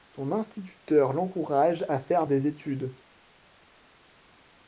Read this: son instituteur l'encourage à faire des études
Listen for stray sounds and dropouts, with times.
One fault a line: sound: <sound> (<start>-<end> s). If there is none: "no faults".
no faults